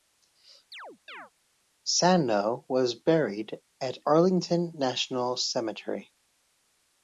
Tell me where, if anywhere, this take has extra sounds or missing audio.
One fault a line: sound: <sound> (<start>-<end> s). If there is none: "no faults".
sound: chirp (0.7-1.3 s)